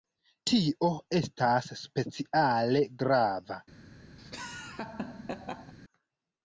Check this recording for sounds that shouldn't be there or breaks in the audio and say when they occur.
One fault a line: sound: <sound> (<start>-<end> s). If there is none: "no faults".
sound: laugh (4.2-5.7 s)